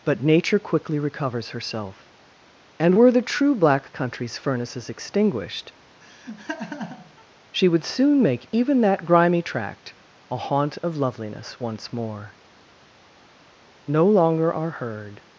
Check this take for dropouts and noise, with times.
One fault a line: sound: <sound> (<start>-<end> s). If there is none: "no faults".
sound: laugh (6.0-7.3 s)